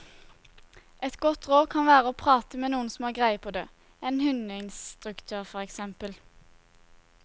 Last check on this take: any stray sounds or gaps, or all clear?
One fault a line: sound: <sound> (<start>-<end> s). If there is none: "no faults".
no faults